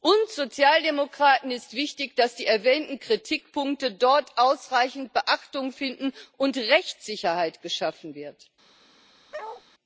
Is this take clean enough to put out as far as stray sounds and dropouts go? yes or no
no